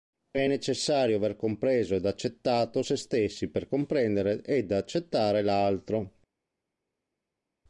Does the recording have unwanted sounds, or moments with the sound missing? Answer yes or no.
no